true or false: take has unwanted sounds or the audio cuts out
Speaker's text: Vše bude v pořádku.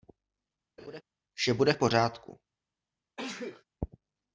true